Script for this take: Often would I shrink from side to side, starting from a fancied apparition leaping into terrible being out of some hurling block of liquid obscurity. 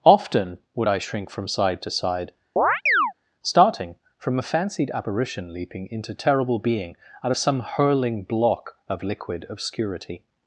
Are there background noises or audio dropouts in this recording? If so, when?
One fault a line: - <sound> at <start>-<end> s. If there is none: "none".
- chirp at 2.6-3.1 s